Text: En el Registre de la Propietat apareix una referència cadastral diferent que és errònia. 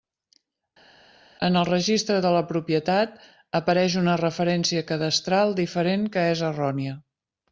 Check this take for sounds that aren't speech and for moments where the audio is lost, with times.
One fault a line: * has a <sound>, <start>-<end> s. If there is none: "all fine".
all fine